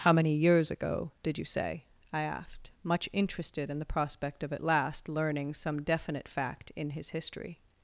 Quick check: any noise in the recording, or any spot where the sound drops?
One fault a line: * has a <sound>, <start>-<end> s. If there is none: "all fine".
all fine